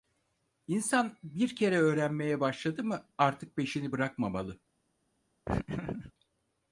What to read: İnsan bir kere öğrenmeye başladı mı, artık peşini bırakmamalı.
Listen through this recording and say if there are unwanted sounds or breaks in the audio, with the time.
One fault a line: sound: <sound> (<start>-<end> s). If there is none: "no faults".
sound: laugh (5.5-6.1 s)